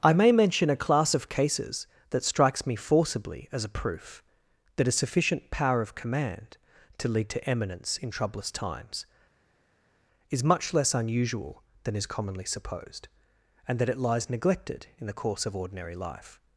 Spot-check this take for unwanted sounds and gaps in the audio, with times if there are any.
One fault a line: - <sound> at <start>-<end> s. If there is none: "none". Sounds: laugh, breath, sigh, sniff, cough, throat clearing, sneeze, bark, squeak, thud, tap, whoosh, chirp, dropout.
none